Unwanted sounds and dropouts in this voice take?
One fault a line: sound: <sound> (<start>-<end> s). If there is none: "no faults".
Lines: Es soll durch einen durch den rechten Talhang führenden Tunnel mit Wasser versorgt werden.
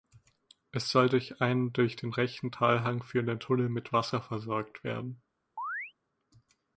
sound: chirp (5.6-5.9 s)